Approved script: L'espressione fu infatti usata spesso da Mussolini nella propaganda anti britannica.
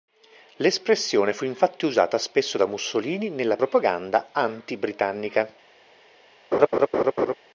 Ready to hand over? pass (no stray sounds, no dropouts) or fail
fail